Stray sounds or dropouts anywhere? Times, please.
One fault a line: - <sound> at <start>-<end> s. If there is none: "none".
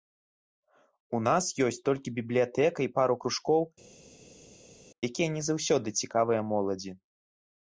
none